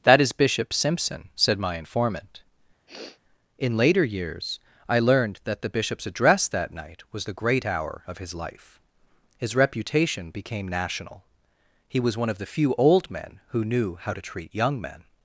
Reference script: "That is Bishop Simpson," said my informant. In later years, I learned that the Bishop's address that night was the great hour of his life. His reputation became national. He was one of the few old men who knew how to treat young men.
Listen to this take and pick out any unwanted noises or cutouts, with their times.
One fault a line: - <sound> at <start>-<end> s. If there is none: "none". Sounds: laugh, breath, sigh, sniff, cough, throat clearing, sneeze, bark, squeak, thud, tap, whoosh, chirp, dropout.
- sniff at 2.9-3.2 s